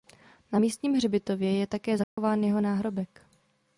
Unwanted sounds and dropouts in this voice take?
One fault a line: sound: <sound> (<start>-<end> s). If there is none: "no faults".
sound: dropout (2.0-2.2 s)